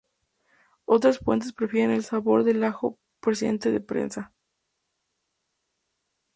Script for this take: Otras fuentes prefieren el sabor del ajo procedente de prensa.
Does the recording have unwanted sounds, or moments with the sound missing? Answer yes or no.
no